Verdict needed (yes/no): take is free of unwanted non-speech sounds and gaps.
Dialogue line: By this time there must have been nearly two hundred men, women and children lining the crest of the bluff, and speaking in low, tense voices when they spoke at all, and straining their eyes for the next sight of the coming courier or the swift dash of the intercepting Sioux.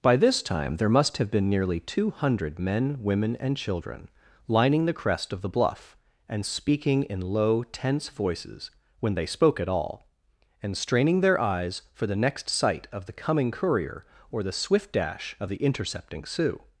yes